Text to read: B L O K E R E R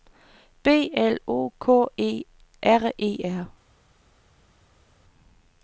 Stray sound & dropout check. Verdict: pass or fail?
pass